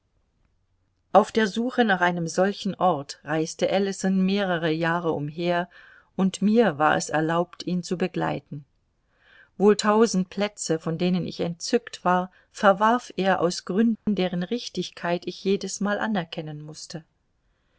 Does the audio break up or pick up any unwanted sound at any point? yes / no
yes